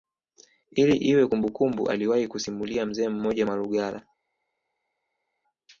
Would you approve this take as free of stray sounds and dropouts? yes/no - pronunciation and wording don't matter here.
yes